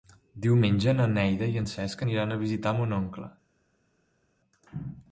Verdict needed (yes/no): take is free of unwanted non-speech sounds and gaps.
yes